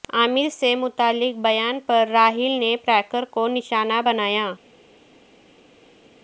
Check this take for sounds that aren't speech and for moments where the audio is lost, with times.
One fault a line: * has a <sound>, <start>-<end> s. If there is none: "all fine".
all fine